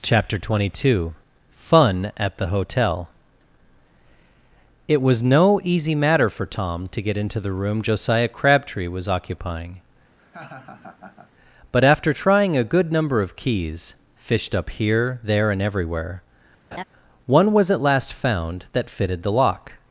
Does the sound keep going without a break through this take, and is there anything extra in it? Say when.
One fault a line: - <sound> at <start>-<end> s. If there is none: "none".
- laugh at 10.2-11.3 s
- laugh at 16.7-16.8 s